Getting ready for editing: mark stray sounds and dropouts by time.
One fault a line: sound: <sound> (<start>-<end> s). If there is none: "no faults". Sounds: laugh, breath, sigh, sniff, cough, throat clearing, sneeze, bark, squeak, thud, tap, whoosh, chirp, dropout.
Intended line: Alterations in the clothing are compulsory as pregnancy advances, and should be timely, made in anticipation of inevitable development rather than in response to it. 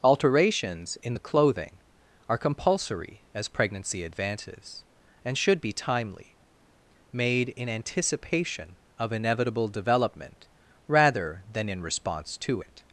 no faults